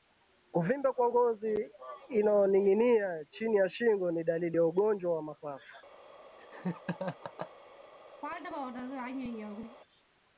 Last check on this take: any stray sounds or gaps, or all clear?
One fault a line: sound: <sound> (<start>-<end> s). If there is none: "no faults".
sound: laugh (6.4-7.5 s)
sound: throat clearing (8.2-9.8 s)